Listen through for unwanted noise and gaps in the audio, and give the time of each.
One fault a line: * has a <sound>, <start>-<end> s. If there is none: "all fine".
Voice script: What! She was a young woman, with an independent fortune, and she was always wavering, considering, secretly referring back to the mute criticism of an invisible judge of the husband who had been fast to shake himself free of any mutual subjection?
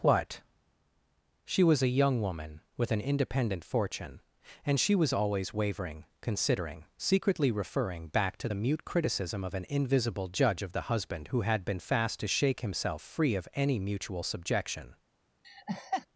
* has a laugh, 15.4-16.1 s